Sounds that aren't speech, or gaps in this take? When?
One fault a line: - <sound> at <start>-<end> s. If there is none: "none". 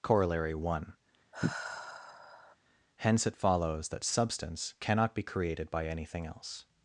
- sigh at 1.3-2.6 s